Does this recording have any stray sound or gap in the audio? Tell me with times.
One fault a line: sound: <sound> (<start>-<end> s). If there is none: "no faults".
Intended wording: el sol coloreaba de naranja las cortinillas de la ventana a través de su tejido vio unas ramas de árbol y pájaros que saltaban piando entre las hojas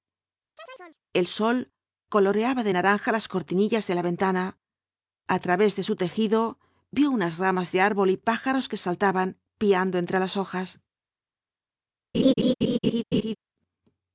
sound: chirp (0.6-1.0 s)
sound: laugh (12.1-13.4 s)